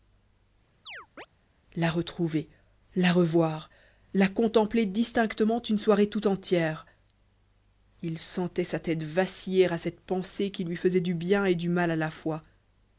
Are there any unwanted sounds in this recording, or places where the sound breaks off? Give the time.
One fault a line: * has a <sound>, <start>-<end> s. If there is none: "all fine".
* has a chirp, 0.9-1.3 s